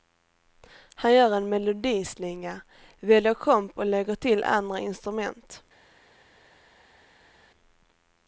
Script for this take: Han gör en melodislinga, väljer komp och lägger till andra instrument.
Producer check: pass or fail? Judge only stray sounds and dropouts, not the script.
pass